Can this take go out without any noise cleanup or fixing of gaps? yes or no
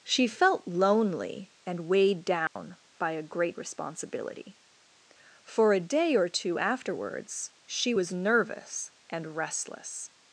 no